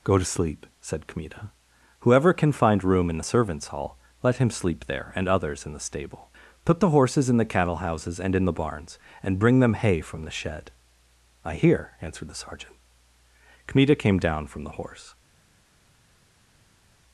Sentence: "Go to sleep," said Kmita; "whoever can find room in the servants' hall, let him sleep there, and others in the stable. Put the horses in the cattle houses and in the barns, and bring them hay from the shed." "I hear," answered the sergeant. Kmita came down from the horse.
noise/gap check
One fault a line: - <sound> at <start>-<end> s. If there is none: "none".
none